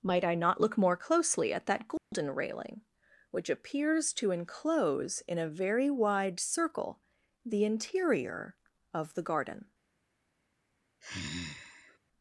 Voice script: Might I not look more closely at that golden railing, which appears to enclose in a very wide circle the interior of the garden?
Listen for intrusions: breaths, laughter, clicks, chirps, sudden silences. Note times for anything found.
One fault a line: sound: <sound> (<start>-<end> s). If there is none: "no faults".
sound: dropout (2.0-2.1 s)
sound: sigh (11.0-12.0 s)